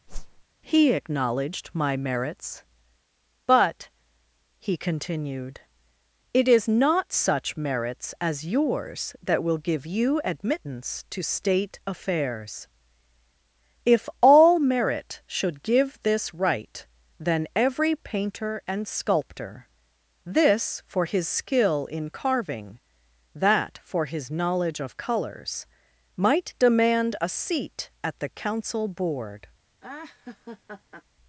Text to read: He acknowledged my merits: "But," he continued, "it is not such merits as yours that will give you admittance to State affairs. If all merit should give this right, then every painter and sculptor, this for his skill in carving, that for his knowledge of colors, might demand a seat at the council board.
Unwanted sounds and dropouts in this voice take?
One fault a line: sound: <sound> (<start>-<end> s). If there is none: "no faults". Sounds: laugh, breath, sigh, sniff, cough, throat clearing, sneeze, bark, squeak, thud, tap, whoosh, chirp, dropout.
sound: whoosh (0.1-0.4 s)
sound: laugh (29.8-31.0 s)